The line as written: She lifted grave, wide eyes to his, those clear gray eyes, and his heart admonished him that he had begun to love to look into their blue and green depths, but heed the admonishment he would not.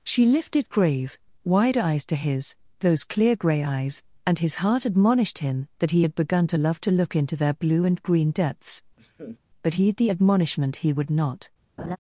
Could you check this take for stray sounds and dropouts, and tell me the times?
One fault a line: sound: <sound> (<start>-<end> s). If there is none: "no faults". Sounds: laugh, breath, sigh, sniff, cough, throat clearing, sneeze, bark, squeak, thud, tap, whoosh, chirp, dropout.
sound: laugh (9.0-9.4 s)
sound: laugh (11.8-12.0 s)